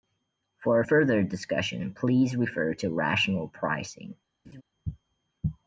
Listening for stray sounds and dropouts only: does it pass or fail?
fail